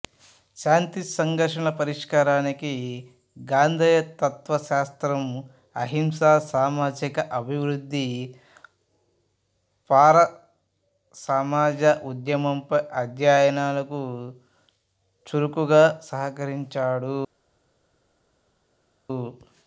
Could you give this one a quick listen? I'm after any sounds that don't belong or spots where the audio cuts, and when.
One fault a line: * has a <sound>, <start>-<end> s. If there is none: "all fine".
all fine